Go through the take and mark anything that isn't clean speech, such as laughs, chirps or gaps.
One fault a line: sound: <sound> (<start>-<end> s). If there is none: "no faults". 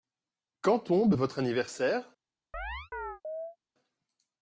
sound: chirp (2.5-3.6 s)